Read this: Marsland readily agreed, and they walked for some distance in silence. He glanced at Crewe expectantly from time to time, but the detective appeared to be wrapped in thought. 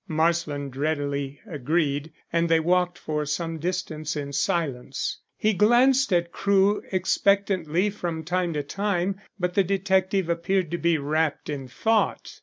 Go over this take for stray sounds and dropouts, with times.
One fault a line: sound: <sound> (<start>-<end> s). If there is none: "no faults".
no faults